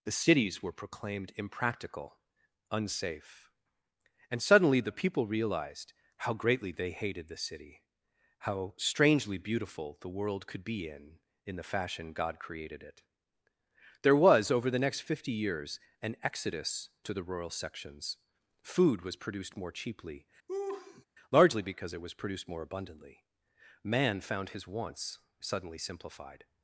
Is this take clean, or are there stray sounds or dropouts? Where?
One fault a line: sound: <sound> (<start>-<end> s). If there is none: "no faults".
sound: laugh (20.5-21.1 s)